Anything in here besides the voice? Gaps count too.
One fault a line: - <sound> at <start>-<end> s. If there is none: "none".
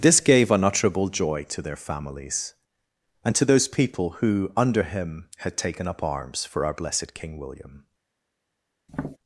- tap at 8.9-9.2 s